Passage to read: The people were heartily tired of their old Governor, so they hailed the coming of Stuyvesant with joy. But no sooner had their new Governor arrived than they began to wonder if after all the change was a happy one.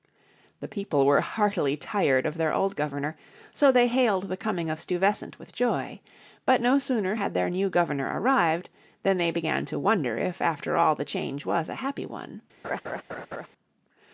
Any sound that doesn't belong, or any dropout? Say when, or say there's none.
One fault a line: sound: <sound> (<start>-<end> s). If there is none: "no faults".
sound: laugh (12.6-13.5 s)